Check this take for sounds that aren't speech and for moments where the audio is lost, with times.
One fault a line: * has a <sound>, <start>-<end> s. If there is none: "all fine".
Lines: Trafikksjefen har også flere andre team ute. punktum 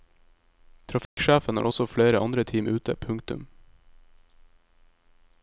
* has a dropout, 1.0-1.2 s